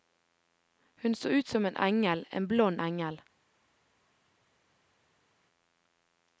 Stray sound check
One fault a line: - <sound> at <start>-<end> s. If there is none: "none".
none